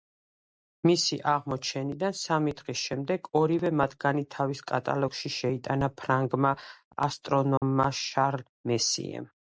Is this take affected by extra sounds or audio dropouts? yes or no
yes